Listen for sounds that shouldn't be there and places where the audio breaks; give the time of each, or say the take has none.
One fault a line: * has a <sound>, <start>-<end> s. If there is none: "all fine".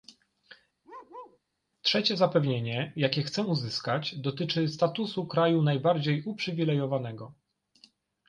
* has a bark, 0.8-1.4 s